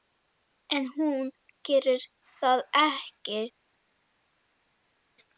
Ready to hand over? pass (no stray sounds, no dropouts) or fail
pass